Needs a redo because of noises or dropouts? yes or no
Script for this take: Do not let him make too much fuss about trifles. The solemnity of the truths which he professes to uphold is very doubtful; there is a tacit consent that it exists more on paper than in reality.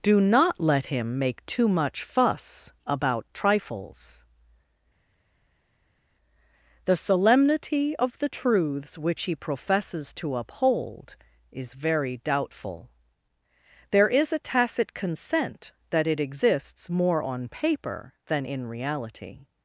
no